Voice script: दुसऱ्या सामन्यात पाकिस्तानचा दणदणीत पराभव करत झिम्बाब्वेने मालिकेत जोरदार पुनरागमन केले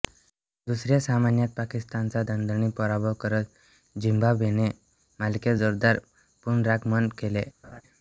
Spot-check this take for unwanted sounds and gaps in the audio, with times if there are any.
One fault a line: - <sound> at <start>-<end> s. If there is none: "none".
- laugh at 7.6-7.8 s